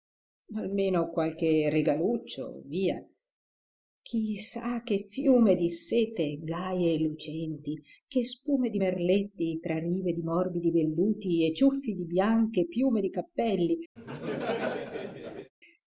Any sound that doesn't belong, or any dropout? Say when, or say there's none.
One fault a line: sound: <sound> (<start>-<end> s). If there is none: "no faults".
sound: laugh (14.0-15.5 s)